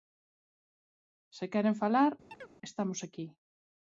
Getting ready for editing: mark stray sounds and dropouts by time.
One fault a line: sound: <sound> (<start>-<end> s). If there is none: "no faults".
sound: chirp (2.3-2.5 s)